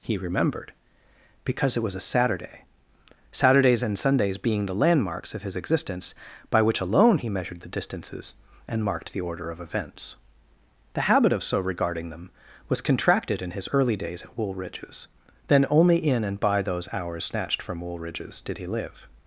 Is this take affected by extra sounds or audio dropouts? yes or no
no